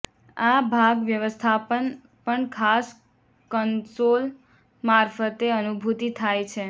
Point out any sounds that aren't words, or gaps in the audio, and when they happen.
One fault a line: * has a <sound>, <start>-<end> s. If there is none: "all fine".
all fine